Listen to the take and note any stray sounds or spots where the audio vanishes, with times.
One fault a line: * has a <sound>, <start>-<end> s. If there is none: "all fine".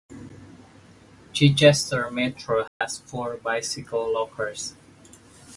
* has a dropout, 2.7-2.8 s